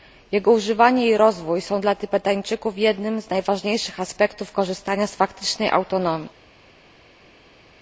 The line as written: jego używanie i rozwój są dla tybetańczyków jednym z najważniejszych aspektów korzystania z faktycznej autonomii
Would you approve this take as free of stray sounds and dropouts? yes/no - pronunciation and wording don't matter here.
yes